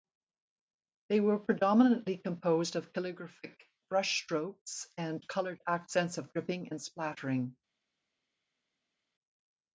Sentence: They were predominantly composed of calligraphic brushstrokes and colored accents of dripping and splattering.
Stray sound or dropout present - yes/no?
no